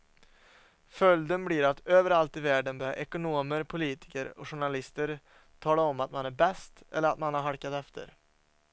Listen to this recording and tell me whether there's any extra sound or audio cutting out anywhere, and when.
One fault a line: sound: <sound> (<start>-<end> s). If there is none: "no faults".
no faults